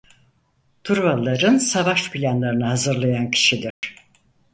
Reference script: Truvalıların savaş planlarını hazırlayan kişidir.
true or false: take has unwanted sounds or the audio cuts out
true